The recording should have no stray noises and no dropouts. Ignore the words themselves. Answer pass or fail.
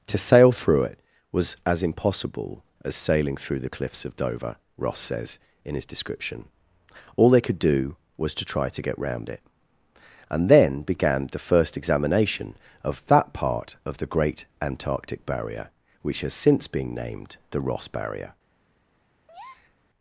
fail